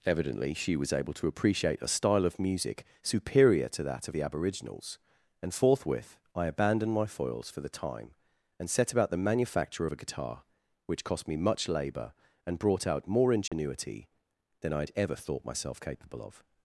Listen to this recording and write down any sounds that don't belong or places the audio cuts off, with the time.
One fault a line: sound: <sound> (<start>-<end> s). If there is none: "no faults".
sound: dropout (13.5-13.5 s)